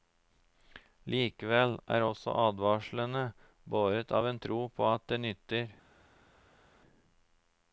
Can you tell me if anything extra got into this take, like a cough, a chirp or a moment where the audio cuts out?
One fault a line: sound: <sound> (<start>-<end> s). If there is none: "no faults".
no faults